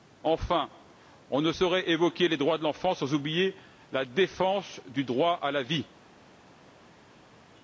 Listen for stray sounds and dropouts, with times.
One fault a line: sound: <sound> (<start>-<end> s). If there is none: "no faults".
no faults